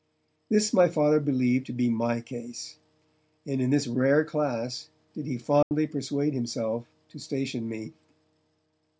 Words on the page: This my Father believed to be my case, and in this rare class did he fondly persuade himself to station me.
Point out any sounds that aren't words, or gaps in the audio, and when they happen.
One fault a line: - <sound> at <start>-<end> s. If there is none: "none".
- dropout at 5.6-5.7 s